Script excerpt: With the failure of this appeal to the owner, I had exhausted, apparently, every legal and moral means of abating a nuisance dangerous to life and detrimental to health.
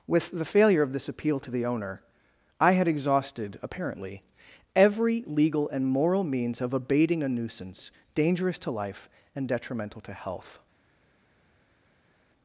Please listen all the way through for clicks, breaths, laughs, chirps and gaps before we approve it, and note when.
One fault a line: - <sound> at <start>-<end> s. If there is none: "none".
none